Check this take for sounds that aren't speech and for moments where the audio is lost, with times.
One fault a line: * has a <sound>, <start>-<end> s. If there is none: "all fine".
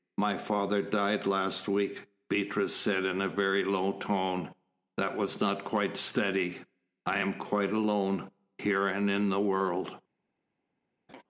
* has a laugh, 11.1-11.2 s